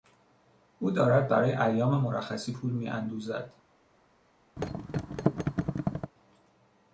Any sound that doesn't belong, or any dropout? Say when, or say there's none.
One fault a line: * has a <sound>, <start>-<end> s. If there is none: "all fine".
* has a thud, 4.6-6.1 s